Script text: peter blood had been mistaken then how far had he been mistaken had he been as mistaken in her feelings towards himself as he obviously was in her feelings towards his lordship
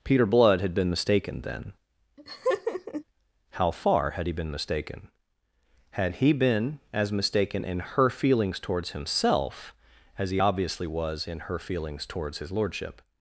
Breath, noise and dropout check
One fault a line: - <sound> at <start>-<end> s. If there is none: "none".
- laugh at 2.2-3.0 s